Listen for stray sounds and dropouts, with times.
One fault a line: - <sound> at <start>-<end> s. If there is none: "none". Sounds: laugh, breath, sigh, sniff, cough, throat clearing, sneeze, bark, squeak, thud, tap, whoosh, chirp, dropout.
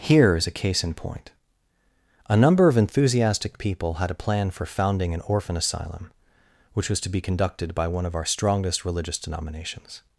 none